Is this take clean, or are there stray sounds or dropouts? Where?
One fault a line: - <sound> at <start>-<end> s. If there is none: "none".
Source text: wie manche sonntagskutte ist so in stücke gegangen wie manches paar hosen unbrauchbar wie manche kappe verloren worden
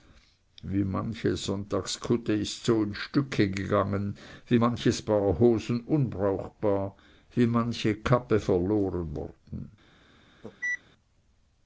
- cough at 10.4-10.8 s